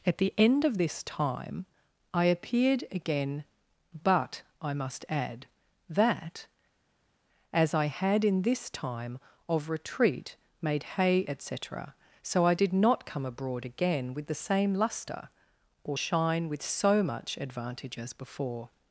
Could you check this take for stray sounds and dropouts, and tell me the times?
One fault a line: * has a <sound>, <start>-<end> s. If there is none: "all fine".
all fine